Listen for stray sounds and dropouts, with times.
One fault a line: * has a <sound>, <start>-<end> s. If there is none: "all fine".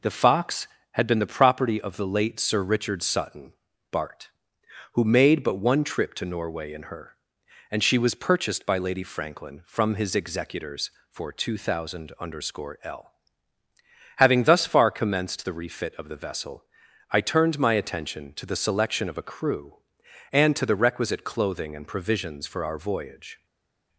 all fine